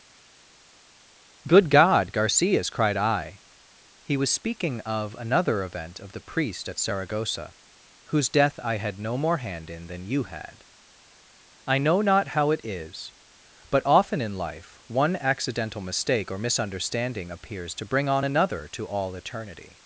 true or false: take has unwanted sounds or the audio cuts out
false